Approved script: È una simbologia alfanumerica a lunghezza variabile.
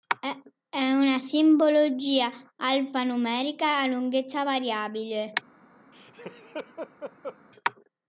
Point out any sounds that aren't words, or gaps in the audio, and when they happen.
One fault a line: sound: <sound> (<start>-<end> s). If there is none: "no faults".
sound: laugh (5.9-7.4 s)